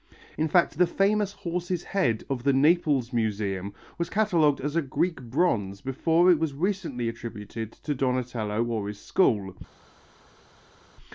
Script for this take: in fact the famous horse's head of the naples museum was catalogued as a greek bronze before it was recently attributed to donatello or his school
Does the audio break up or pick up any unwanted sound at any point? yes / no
no